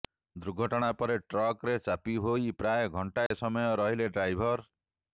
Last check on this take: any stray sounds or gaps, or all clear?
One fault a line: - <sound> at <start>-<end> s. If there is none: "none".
- dropout at 3.3-3.3 s